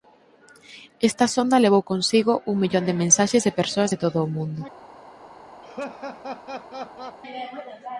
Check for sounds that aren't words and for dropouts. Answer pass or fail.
fail